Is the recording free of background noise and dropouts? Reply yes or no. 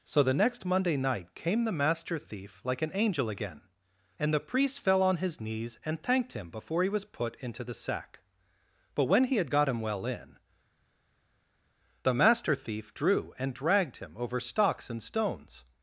yes